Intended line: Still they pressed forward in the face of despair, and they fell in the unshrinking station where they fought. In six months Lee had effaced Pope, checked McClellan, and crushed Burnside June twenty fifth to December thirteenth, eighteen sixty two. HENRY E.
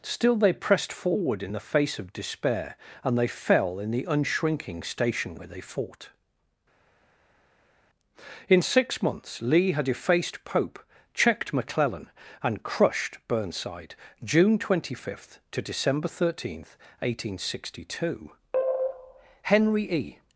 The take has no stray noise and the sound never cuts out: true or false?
true